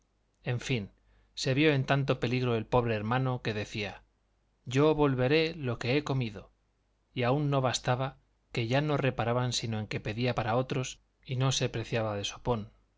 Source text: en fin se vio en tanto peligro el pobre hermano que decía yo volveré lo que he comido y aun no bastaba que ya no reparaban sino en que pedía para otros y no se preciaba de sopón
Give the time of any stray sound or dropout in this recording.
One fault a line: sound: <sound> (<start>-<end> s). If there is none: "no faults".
no faults